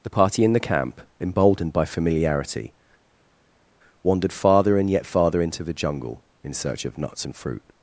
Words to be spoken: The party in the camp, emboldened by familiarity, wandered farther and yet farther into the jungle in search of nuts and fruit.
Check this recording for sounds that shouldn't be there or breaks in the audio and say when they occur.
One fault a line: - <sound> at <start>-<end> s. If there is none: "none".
none